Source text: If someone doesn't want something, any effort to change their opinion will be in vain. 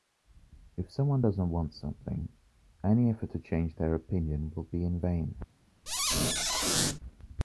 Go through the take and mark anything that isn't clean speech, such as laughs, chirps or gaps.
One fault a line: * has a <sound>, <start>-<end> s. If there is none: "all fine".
* has a squeak, 5.9-7.0 s